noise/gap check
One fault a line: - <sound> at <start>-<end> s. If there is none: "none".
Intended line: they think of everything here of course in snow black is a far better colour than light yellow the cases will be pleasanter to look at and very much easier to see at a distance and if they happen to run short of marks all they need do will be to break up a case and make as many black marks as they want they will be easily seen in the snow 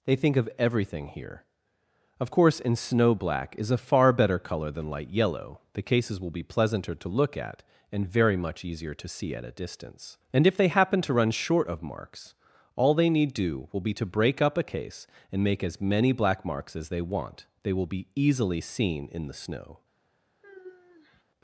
- sigh at 20.4-21.2 s